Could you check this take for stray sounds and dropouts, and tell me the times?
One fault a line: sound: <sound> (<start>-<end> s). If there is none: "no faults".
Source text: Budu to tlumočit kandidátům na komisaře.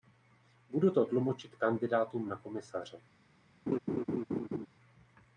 sound: laugh (3.7-4.7 s)